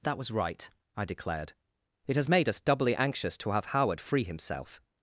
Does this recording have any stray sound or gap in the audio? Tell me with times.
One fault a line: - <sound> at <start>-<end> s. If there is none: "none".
none